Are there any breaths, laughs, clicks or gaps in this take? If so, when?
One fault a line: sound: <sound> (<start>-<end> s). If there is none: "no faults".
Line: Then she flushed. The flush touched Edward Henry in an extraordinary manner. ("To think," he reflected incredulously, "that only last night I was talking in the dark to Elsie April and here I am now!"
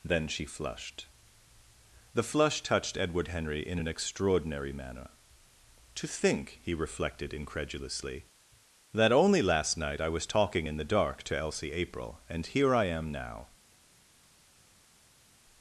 no faults